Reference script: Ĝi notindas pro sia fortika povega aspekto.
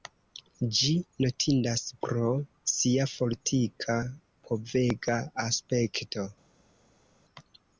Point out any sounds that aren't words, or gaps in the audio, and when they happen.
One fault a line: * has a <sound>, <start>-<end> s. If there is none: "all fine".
all fine